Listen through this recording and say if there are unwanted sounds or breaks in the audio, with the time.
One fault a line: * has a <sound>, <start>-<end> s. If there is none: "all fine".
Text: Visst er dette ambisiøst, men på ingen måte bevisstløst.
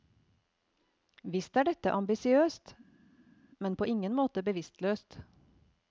all fine